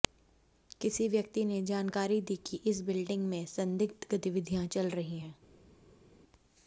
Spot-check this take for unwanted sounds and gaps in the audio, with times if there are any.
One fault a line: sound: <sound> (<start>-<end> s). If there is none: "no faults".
no faults